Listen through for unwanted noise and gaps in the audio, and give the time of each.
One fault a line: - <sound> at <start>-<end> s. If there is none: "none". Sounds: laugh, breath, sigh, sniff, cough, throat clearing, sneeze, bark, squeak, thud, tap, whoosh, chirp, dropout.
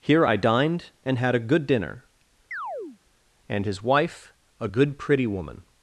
- chirp at 2.5-3.0 s